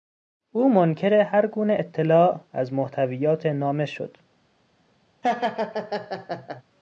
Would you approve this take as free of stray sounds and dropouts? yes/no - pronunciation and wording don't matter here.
no